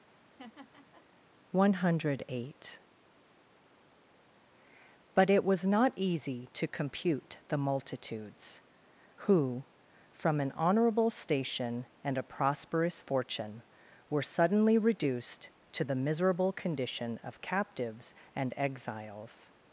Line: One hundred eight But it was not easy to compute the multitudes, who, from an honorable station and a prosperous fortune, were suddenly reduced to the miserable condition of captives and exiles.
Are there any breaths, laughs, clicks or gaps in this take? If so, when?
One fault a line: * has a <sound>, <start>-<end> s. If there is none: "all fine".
* has a laugh, 0.1-1.1 s